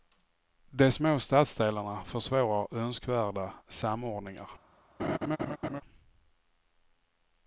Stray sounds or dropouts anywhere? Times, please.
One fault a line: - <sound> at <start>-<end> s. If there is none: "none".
- laugh at 5.0-5.8 s